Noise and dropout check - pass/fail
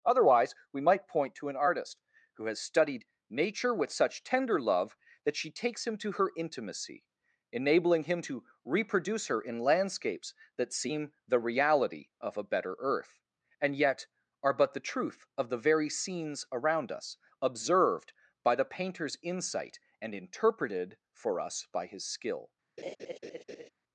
fail